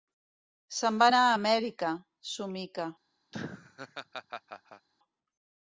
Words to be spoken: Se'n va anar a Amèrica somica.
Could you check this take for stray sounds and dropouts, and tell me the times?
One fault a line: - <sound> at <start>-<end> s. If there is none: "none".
- laugh at 3.3-4.9 s